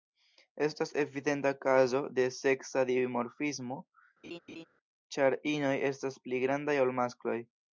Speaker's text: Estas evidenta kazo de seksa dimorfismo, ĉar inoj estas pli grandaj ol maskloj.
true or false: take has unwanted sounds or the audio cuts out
true